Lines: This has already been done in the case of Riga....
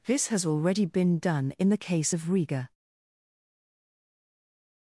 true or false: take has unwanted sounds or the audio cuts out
false